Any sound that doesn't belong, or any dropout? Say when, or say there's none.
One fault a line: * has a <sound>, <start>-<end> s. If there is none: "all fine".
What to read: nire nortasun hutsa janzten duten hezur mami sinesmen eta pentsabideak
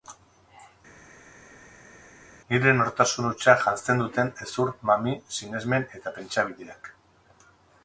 all fine